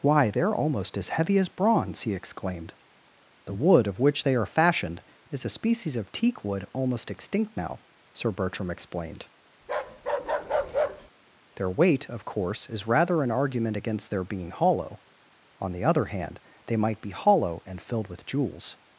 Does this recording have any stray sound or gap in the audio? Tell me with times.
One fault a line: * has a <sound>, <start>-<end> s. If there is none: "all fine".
* has a bark, 9.6-11.1 s